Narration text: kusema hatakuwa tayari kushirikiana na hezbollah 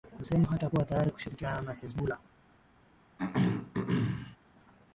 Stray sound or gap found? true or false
true